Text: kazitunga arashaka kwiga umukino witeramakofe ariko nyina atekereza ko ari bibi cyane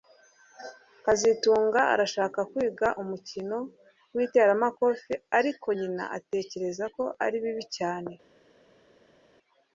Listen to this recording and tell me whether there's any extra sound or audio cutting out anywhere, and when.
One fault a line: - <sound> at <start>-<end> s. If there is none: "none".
none